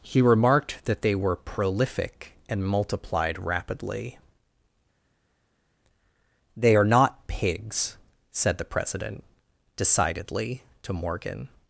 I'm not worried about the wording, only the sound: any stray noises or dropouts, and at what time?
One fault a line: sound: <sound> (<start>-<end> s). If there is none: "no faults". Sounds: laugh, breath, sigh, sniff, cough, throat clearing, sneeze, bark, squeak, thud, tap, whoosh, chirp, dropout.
no faults